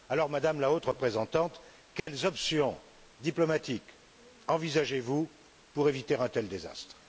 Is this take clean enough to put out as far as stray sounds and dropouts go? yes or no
no